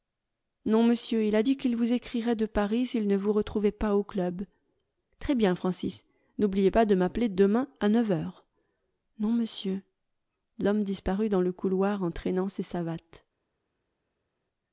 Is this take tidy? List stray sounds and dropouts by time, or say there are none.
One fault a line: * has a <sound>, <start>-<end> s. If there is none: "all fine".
all fine